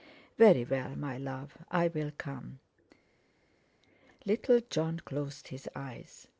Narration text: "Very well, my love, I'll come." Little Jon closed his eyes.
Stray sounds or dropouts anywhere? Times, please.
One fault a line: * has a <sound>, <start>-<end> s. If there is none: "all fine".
all fine